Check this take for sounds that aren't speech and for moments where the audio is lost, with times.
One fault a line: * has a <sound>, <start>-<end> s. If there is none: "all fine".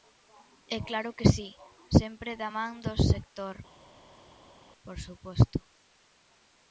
all fine